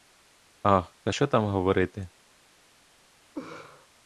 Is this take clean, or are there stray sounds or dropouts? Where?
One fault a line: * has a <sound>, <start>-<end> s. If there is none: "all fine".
* has a laugh, 3.3-3.9 s